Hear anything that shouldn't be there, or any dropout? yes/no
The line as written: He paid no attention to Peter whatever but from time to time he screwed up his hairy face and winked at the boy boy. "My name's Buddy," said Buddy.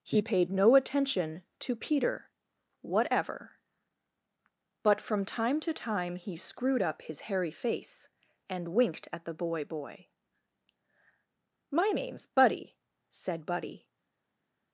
no